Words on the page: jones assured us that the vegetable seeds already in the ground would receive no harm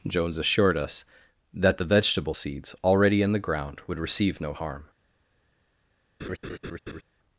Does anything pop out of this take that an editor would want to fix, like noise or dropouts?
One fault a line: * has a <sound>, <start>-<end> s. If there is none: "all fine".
* has a laugh, 6.2-7.0 s